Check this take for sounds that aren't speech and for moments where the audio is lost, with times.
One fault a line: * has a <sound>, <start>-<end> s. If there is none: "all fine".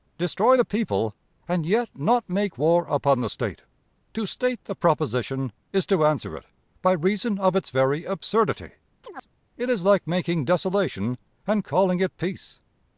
* has a chirp, 9.0-9.3 s